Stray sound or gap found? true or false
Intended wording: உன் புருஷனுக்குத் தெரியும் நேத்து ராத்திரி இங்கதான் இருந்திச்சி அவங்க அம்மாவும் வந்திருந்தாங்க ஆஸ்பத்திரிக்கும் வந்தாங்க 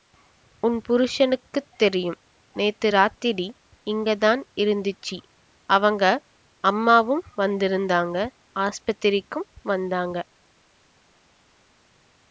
false